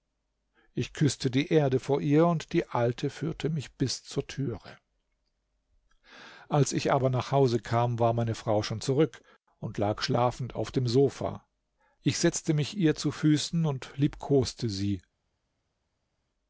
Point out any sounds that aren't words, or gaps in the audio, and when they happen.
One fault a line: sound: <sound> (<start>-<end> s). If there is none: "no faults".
no faults